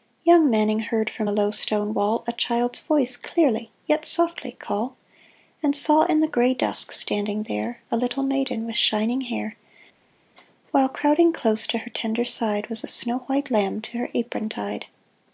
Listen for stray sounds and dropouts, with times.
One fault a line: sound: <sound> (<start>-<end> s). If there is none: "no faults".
no faults